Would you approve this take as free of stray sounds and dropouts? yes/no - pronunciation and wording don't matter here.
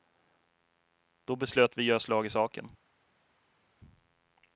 yes